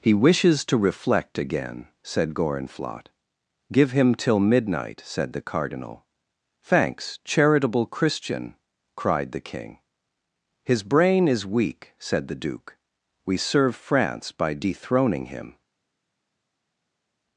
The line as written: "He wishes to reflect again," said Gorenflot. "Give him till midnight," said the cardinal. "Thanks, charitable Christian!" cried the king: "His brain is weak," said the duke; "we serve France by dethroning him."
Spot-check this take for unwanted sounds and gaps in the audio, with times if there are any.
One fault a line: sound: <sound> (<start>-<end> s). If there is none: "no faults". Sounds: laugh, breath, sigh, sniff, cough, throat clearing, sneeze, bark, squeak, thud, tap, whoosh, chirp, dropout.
no faults